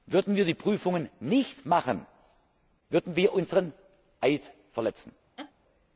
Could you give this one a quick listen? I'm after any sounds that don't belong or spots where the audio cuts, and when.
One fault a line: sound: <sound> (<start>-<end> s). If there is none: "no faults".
sound: laugh (5.4-5.5 s)